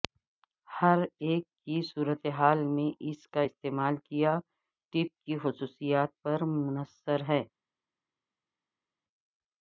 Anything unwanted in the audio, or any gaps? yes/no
no